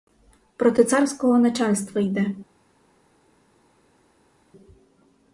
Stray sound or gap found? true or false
false